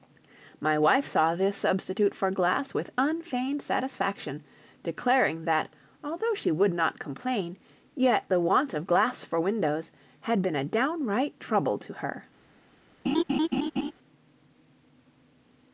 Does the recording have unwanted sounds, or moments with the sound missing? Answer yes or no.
yes